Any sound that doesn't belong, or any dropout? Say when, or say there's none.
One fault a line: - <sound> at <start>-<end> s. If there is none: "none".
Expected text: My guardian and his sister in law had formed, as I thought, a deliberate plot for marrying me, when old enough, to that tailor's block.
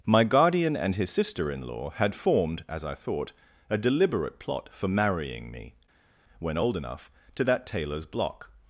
none